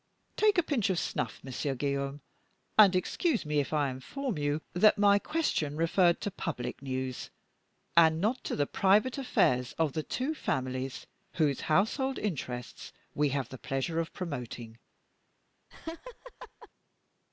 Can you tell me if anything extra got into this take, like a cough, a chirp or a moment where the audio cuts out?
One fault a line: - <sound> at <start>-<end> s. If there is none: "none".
- laugh at 15.7-16.7 s